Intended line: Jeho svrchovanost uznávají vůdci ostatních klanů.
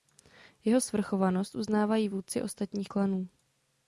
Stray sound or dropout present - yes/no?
no